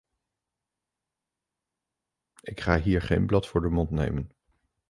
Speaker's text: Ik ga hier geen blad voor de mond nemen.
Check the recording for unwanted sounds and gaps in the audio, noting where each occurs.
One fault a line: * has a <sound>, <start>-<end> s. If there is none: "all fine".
all fine